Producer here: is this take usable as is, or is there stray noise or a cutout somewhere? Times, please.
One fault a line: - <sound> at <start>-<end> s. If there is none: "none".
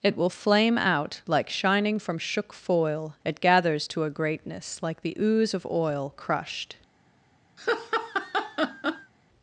- laugh at 7.6-9.1 s